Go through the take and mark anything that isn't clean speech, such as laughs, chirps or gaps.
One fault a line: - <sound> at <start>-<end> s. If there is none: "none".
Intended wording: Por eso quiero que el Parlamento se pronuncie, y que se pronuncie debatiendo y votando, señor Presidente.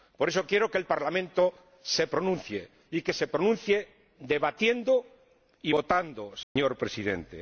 - dropout at 6.4-6.6 s